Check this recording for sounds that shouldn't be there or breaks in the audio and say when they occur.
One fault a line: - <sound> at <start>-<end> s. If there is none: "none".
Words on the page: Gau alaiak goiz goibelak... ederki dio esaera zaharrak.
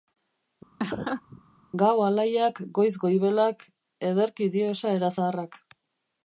- laugh at 0.8-1.4 s